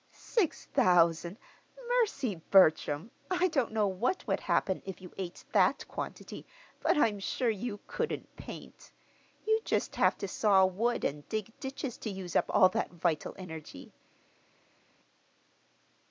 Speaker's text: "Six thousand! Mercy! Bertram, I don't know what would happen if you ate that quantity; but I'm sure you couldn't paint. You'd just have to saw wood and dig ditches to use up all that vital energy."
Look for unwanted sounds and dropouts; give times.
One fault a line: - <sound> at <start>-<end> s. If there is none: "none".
none